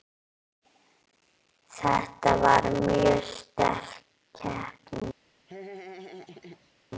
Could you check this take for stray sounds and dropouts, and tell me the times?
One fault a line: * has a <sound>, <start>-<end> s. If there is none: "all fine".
* has a laugh, 5.5-6.7 s